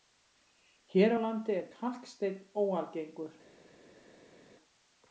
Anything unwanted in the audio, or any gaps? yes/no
no